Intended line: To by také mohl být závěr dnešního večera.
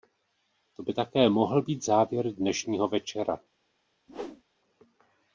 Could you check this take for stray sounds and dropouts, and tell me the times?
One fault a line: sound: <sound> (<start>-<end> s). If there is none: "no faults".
sound: whoosh (4.1-4.4 s)